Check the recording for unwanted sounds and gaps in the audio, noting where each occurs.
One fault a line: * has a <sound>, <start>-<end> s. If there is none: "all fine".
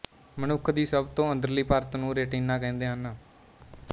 all fine